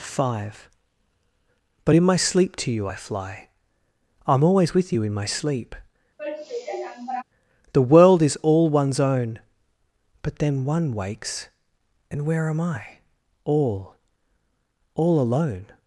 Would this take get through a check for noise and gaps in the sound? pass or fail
fail